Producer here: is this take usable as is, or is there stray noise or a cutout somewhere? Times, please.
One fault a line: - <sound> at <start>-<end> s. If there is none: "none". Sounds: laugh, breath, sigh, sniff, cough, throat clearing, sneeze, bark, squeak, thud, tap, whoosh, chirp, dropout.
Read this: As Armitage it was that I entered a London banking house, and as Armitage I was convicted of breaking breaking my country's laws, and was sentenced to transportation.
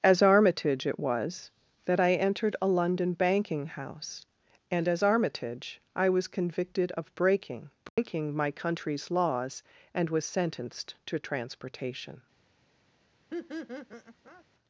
- dropout at 7.9-8.0 s
- laugh at 13.3-14.4 s